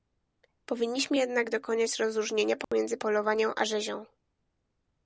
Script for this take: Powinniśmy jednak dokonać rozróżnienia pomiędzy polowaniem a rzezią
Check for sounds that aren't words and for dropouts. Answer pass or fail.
fail